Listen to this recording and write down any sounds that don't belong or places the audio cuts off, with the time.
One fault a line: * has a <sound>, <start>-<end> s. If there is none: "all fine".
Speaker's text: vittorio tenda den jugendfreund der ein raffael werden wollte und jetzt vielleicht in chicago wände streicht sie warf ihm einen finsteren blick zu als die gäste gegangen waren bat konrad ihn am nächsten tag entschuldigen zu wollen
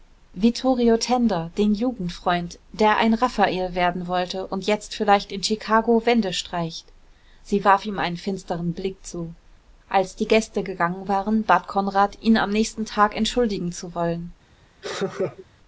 * has a laugh, 14.8-15.5 s